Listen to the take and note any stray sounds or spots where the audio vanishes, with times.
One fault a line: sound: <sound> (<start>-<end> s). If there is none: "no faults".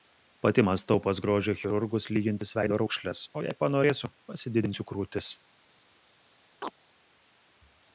sound: chirp (6.6-6.7 s)